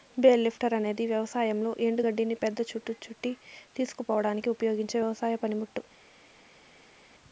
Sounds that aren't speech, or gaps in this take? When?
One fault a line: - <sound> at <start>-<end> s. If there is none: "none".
none